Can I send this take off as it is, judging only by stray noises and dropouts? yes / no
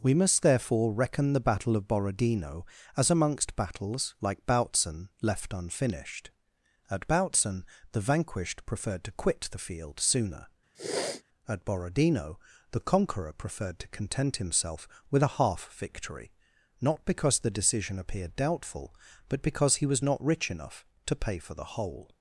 no